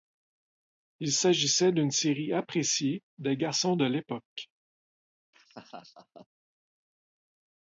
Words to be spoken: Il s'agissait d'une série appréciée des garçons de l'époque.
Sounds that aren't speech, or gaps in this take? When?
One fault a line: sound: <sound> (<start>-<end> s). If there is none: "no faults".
sound: laugh (5.3-6.3 s)